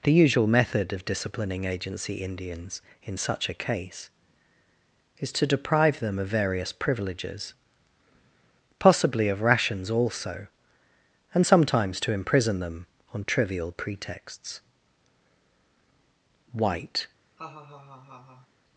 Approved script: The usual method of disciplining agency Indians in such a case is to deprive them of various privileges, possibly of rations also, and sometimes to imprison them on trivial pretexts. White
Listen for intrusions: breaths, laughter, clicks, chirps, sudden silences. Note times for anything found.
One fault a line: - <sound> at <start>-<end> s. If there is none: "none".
- laugh at 17.4-18.5 s